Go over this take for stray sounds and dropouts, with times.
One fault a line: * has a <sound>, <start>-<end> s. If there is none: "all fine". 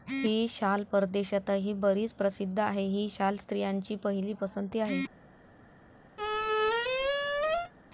* has a squeak, 6.2-7.7 s